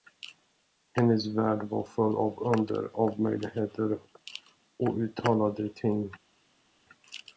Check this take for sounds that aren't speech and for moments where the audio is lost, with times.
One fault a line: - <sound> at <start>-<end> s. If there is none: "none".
none